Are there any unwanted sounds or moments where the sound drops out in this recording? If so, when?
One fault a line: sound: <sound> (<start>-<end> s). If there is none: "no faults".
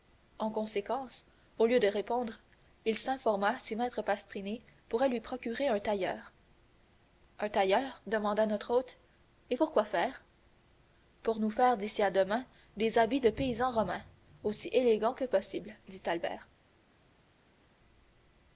no faults